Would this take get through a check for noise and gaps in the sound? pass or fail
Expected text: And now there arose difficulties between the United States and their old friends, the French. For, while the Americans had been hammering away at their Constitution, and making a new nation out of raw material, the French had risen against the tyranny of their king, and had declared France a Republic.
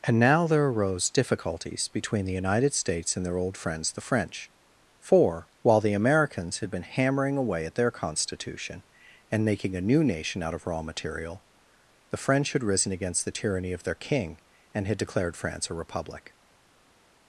pass